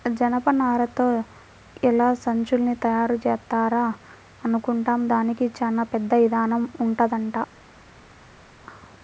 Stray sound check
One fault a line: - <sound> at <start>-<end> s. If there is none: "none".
none